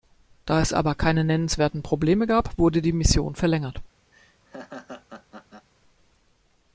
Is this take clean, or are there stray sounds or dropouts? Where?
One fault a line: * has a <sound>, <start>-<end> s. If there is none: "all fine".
* has a laugh, 4.1-5.7 s